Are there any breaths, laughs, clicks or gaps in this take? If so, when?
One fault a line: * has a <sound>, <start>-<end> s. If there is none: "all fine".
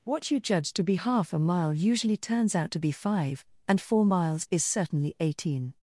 all fine